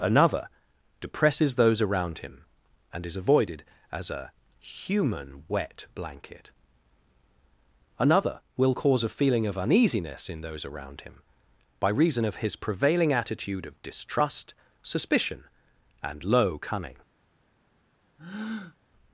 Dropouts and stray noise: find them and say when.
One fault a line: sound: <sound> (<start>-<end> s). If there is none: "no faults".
sound: breath (18.2-18.8 s)